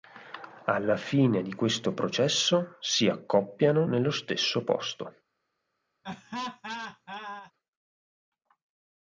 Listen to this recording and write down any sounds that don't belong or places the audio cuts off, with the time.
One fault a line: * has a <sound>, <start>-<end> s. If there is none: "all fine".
* has a laugh, 6.0-7.5 s